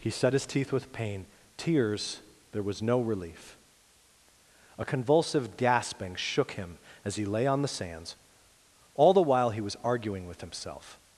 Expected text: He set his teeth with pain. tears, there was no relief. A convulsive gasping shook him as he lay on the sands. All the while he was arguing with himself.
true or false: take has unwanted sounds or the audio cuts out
false